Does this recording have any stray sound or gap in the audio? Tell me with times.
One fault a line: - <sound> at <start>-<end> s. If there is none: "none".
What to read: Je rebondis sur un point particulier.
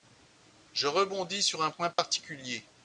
- dropout at 1.9-2.0 s